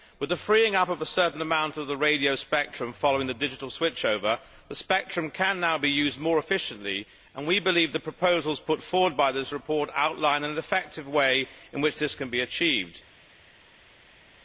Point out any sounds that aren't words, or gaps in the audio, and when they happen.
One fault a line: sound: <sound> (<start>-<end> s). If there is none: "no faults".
no faults